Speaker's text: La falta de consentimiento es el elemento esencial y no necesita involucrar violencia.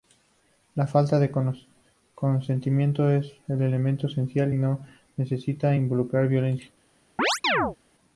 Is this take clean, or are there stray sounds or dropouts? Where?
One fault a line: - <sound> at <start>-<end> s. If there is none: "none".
- chirp at 7.2-7.8 s